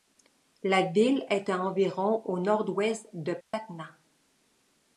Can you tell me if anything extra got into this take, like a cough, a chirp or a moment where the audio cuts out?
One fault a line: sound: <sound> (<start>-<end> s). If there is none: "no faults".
sound: dropout (3.4-3.5 s)